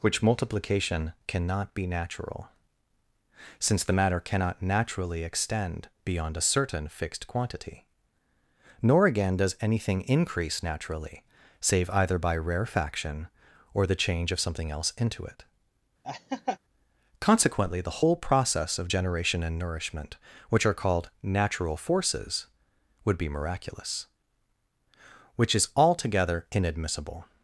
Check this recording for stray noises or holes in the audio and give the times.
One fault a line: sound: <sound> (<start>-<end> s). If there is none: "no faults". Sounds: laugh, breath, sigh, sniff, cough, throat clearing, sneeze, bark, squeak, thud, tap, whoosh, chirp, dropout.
sound: laugh (16.0-16.6 s)